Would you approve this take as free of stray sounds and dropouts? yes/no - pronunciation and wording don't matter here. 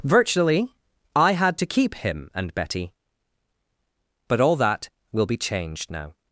yes